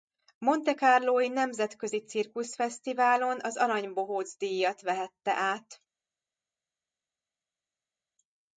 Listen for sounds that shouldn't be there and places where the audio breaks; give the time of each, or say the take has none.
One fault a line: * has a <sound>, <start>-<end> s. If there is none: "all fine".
all fine